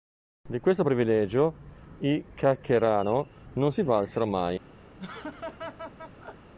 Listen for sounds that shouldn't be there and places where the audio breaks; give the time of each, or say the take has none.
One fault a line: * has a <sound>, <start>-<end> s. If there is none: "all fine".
* has a laugh, 5.0-6.5 s